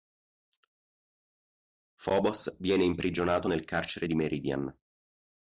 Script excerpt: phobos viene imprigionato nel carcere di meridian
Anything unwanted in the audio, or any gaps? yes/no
no